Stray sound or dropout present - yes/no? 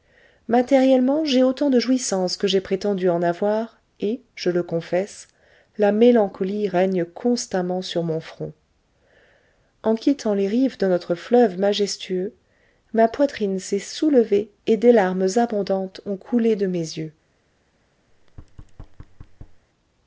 yes